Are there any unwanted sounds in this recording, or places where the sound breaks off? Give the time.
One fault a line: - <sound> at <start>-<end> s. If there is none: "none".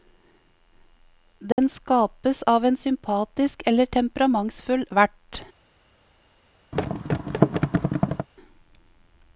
- dropout at 1.5-1.6 s
- thud at 6.7-8.3 s